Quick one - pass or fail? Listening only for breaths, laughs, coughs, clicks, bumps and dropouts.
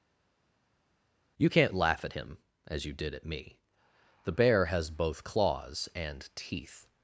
pass